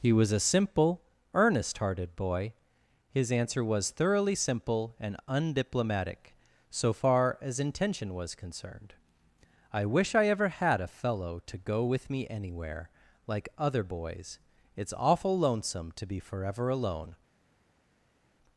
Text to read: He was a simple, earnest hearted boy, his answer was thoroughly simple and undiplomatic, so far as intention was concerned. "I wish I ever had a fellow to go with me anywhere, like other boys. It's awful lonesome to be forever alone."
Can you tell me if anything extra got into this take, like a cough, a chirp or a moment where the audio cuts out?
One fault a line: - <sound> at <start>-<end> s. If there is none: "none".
none